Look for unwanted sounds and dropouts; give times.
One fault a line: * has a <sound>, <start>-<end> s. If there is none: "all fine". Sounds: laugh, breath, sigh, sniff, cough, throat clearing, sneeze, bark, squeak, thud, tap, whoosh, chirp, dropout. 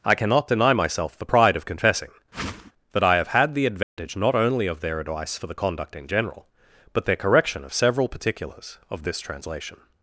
* has a whoosh, 2.3-2.7 s
* has a dropout, 3.8-4.0 s